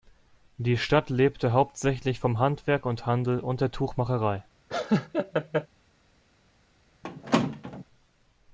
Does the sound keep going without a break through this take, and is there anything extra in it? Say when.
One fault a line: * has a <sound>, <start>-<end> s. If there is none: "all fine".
* has a laugh, 4.7-5.7 s
* has a squeak, 7.0-7.8 s